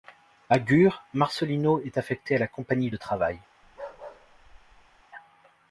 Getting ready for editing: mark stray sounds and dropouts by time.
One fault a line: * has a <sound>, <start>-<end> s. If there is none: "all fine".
* has a bark, 3.6-5.0 s